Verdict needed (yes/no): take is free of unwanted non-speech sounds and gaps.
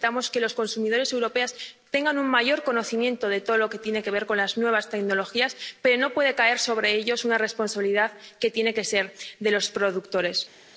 yes